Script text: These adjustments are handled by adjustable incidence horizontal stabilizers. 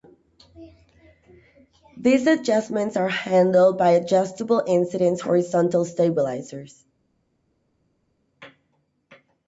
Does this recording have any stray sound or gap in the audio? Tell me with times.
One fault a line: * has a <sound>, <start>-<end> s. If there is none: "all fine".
all fine